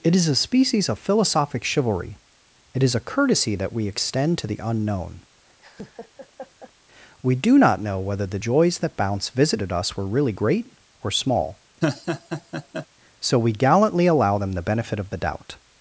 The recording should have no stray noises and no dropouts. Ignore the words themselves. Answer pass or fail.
fail